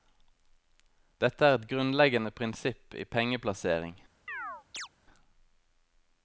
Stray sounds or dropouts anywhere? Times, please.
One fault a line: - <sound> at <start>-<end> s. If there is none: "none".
- chirp at 4.3-4.9 s